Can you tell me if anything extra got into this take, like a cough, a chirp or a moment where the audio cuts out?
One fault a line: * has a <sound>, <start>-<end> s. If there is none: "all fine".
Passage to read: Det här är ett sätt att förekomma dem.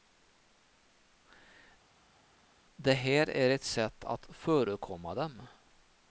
all fine